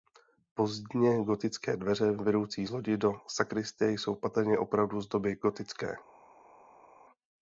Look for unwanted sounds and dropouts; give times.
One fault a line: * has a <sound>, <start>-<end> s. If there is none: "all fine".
all fine